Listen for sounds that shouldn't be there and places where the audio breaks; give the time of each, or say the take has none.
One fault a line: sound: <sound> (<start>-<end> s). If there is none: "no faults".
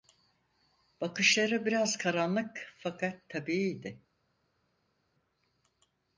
no faults